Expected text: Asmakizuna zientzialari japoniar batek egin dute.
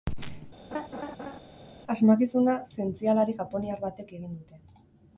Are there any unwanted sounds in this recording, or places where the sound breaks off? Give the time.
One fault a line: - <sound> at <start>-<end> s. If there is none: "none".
- laugh at 0.7-1.4 s